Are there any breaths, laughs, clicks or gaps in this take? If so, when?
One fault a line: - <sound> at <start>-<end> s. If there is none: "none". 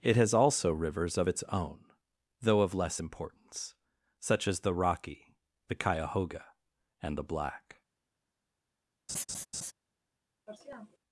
- laugh at 9.1-9.7 s
- sniff at 10.5-11.0 s